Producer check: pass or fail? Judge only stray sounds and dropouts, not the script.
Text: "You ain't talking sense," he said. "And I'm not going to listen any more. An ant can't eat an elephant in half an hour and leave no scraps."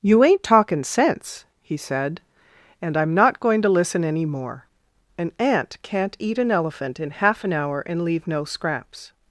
pass